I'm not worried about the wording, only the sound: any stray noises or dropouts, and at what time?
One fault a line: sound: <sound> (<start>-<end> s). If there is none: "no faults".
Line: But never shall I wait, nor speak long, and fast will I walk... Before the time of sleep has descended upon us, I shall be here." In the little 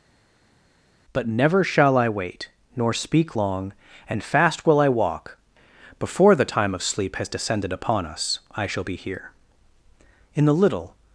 no faults